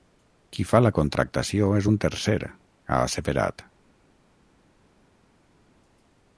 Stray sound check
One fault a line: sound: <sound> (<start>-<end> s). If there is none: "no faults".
no faults